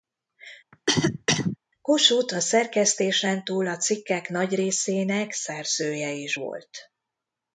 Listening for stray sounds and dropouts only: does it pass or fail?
fail